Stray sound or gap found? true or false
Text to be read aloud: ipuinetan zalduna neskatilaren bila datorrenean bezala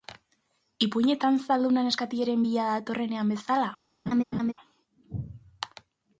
true